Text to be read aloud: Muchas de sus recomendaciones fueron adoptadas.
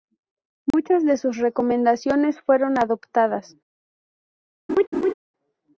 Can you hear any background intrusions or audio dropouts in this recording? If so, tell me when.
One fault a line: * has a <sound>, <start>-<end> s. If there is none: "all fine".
* has a dropout, 0.7-0.7 s
* has a laugh, 4.7-5.1 s